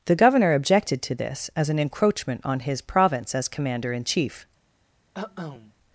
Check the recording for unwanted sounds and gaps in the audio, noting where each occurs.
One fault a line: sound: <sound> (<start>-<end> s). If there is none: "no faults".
sound: cough (5.1-5.7 s)